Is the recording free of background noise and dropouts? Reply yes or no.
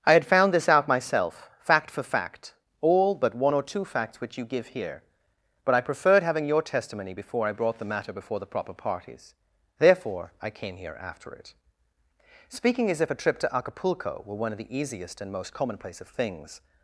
yes